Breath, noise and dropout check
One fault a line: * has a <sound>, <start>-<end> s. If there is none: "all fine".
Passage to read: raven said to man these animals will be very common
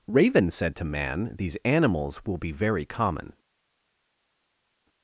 all fine